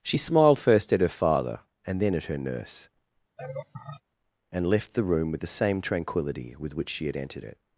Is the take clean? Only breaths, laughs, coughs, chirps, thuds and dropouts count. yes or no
no